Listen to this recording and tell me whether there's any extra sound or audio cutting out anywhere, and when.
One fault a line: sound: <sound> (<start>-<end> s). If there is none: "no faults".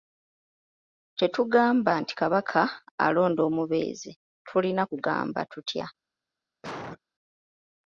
sound: cough (6.6-7.0 s)